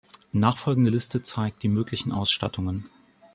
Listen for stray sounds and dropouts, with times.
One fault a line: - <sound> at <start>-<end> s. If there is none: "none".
none